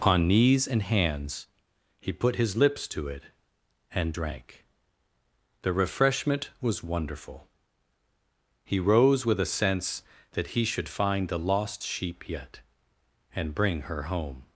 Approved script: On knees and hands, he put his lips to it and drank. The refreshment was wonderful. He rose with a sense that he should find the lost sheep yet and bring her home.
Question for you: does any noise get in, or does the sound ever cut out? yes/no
no